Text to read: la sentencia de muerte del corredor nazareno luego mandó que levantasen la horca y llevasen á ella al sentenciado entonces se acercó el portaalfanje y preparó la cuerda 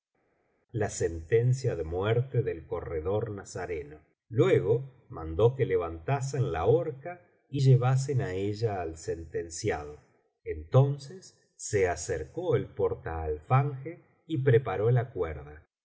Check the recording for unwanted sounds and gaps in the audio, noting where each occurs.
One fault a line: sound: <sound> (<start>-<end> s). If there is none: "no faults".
no faults